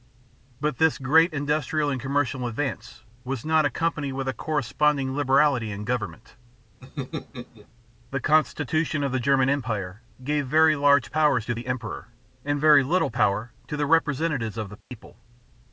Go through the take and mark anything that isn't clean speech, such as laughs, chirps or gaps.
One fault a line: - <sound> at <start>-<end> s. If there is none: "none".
- laugh at 6.8-7.7 s
- dropout at 14.8-14.9 s